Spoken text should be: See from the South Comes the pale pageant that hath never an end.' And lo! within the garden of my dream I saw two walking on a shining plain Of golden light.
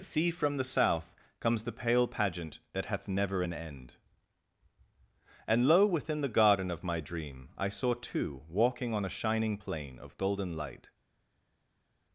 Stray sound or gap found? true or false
false